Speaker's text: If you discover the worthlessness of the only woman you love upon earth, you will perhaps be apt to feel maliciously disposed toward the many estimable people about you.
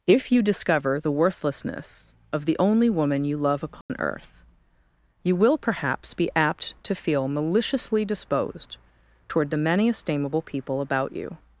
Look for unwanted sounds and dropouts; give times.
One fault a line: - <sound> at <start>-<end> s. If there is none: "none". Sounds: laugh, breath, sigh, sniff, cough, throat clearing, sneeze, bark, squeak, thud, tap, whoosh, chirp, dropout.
- dropout at 3.8-3.9 s